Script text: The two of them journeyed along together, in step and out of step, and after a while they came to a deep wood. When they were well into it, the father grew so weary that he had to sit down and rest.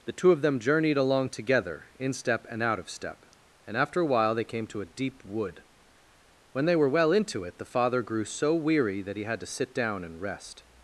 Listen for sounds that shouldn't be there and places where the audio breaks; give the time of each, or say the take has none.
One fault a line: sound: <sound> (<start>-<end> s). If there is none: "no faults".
no faults